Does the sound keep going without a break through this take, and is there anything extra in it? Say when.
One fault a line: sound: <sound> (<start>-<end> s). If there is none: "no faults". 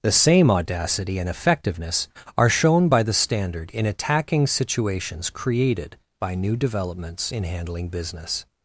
no faults